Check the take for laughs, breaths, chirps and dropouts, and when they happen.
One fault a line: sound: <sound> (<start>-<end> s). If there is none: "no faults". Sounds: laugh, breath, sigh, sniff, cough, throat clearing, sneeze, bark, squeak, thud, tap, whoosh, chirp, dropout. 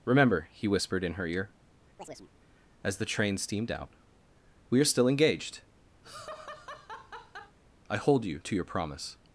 sound: chirp (2.0-2.3 s)
sound: laugh (6.0-7.6 s)